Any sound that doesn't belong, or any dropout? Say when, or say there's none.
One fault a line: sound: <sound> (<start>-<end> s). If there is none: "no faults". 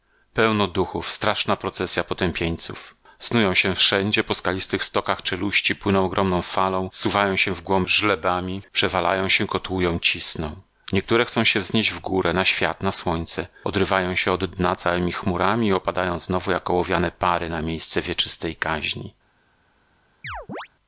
sound: chirp (20.2-20.7 s)